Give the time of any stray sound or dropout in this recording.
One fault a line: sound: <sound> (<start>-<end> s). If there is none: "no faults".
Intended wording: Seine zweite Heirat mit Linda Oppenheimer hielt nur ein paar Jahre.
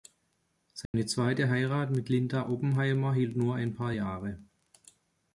sound: dropout (0.9-0.9 s)